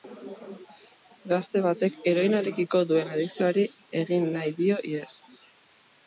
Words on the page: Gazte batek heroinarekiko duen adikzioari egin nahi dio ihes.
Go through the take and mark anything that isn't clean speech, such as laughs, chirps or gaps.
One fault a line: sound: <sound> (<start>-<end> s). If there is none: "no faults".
no faults